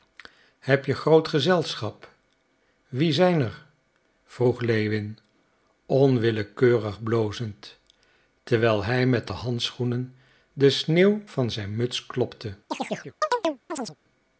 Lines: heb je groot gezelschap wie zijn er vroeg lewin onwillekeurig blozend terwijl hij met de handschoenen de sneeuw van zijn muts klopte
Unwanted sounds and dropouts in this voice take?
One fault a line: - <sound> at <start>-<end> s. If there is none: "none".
- chirp at 12.7-14.0 s